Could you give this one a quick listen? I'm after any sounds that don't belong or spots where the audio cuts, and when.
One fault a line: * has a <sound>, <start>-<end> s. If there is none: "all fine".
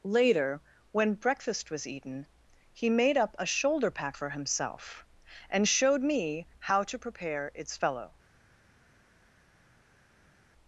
all fine